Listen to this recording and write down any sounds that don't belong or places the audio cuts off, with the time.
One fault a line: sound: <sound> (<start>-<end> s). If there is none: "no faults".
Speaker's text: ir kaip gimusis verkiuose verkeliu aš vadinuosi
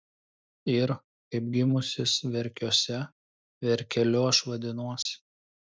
sound: dropout (5.0-5.1 s)